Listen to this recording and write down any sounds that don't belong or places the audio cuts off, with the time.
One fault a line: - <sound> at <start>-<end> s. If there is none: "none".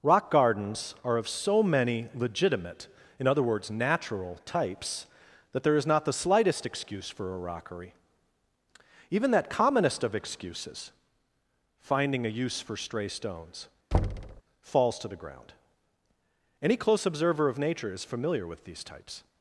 - thud at 13.9-14.4 s